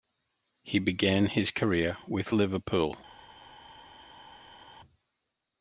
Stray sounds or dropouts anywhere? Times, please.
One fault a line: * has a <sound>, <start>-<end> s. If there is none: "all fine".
all fine